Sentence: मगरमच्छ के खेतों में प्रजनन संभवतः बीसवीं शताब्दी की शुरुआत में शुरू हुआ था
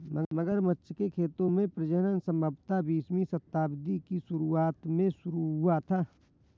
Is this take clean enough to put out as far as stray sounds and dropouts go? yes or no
yes